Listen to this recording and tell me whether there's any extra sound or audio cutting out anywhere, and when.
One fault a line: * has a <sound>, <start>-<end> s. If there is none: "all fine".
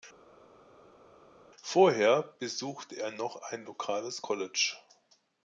all fine